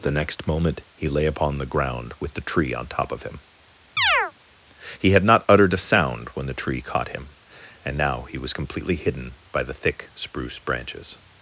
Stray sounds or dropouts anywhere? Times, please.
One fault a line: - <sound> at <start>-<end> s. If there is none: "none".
- chirp at 4.0-4.3 s